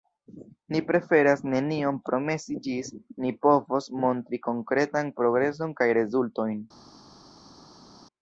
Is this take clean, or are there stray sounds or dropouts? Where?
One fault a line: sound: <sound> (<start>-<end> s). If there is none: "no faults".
no faults